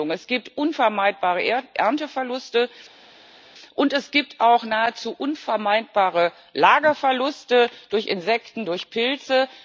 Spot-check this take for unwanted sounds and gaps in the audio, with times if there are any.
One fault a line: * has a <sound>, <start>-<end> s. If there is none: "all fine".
all fine